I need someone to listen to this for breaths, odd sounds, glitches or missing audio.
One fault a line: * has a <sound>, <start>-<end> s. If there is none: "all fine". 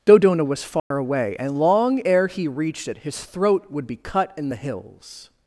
* has a dropout, 0.8-0.9 s